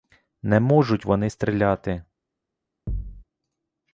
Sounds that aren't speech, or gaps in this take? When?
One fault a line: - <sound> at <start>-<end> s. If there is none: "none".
- thud at 2.9-3.2 s